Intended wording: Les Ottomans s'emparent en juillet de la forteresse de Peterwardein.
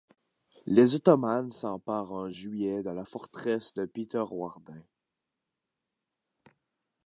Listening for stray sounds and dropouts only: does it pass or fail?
pass